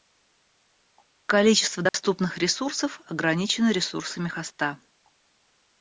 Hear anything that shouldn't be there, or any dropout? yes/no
yes